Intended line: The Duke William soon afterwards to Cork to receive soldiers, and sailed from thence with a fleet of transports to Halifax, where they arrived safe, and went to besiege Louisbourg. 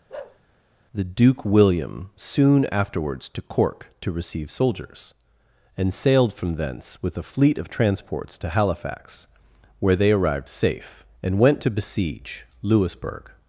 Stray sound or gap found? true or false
true